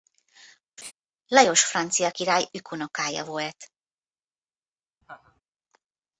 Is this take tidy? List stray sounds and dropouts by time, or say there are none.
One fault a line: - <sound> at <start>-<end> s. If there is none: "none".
- laugh at 0.8-0.9 s
- laugh at 5.0-5.4 s